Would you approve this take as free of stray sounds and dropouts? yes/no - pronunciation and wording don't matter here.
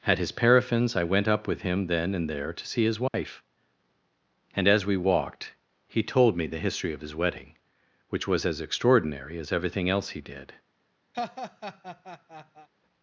no